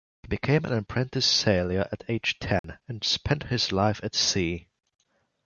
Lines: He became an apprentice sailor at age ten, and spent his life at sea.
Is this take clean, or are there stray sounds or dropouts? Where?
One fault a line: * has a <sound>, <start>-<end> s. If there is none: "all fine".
* has a dropout, 2.6-2.6 s